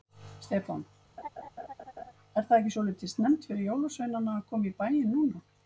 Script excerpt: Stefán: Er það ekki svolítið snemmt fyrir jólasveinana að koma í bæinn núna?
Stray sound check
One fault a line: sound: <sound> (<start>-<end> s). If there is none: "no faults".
sound: laugh (1.2-2.1 s)